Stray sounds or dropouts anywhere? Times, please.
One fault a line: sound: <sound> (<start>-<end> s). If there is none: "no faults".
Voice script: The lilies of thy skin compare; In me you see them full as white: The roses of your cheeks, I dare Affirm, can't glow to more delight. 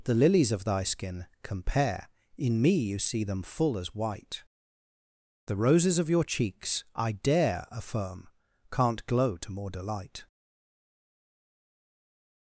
no faults